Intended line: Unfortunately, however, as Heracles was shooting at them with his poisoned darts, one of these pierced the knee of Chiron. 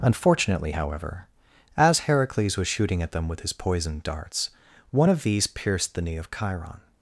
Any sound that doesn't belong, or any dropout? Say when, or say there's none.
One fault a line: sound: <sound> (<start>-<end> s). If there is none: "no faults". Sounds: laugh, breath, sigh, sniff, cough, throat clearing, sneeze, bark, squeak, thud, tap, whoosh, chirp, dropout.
no faults